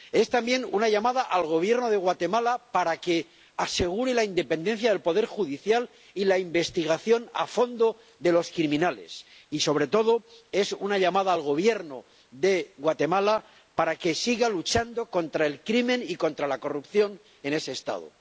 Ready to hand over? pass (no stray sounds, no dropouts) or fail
pass